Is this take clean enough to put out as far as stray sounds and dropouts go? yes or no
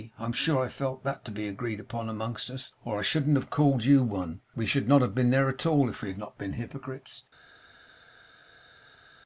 yes